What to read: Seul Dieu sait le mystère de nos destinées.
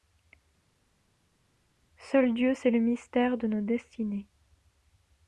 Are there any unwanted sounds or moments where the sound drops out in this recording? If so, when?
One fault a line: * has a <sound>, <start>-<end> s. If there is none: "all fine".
all fine